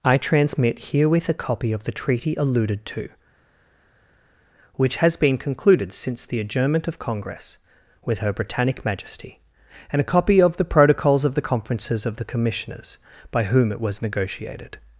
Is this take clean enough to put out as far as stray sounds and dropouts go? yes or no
yes